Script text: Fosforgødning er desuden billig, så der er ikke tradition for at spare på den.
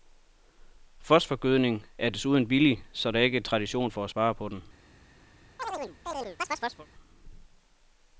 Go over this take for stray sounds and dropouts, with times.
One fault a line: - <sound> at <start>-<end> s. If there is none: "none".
- chirp at 5.6-6.9 s